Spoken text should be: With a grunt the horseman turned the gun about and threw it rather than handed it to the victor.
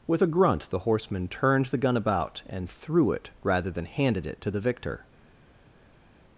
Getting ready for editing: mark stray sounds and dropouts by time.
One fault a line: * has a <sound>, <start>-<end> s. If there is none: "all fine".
all fine